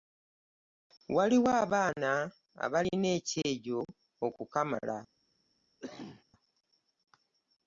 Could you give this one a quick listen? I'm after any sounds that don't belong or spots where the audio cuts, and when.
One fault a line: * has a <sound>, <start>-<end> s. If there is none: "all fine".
* has a cough, 5.8-6.2 s